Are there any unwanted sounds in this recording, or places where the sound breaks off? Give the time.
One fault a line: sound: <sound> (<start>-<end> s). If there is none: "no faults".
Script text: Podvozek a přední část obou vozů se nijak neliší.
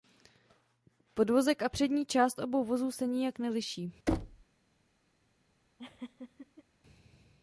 sound: thud (4.1-4.4 s)
sound: laugh (5.8-6.6 s)